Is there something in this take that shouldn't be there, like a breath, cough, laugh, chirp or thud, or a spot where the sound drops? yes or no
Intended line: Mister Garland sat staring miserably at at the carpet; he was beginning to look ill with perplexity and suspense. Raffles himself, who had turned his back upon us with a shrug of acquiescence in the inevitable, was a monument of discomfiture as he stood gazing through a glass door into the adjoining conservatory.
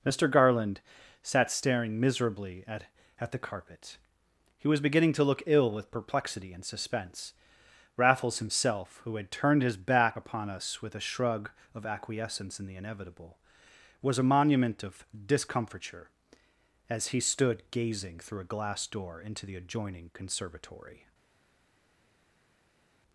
no